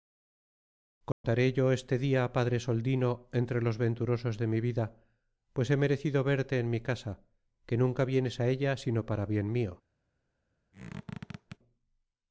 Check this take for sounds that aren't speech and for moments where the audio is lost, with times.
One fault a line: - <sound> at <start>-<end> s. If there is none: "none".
- dropout at 1.1-1.2 s
- squeak at 10.7-11.6 s